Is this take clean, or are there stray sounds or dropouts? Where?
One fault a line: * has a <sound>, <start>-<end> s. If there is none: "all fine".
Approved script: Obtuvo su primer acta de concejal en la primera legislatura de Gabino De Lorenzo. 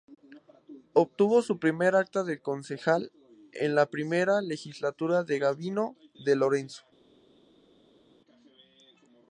all fine